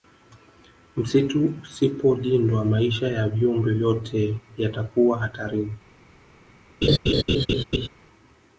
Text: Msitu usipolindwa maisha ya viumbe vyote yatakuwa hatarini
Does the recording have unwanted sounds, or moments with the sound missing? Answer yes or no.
yes